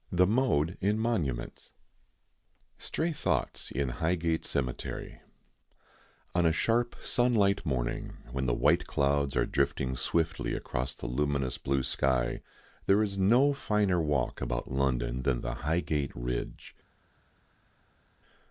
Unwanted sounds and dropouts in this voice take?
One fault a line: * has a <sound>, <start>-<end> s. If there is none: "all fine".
all fine